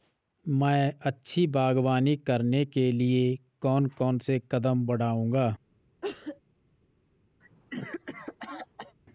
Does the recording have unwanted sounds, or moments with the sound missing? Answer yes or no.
yes